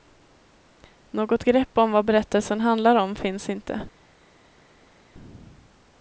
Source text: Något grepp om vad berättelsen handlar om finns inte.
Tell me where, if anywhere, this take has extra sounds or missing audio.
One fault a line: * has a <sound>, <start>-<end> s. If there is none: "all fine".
all fine